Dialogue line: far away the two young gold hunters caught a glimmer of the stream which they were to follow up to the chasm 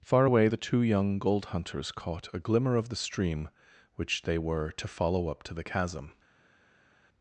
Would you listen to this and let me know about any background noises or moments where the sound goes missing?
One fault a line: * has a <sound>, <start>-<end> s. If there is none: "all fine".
all fine